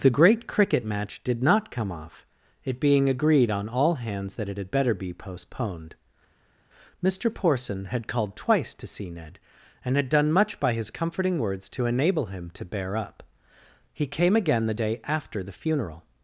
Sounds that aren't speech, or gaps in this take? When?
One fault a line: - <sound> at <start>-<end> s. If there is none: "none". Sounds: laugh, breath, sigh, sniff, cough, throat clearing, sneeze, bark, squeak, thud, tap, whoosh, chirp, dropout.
none